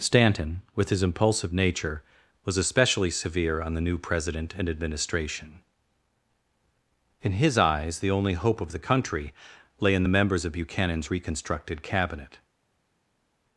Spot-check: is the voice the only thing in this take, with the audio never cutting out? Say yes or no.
yes